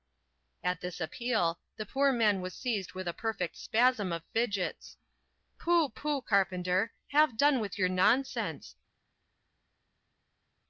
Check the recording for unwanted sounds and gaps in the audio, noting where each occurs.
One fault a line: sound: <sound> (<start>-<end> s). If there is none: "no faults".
no faults